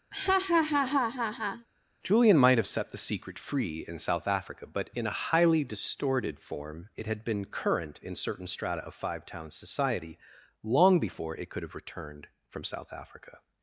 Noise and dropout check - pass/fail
fail